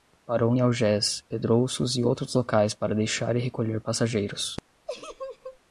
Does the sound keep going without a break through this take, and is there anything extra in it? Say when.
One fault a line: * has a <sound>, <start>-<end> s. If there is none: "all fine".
* has a laugh, 4.9-5.6 s